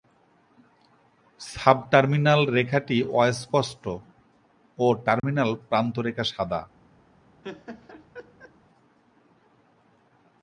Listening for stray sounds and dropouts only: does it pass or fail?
fail